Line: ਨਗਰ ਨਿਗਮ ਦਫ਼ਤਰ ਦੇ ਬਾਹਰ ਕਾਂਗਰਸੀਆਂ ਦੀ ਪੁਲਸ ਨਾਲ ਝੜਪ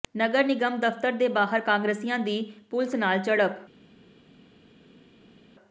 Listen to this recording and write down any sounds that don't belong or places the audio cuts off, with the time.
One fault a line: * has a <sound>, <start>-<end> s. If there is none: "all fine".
all fine